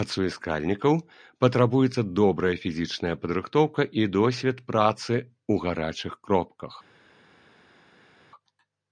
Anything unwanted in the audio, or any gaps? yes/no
no